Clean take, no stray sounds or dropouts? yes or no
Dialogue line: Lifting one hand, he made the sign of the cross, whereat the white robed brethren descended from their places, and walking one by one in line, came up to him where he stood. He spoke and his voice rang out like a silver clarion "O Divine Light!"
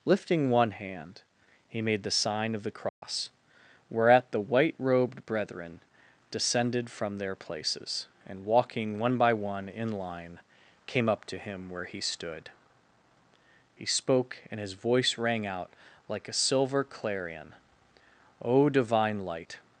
no